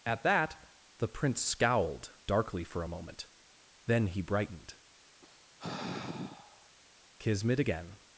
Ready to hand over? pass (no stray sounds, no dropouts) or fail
fail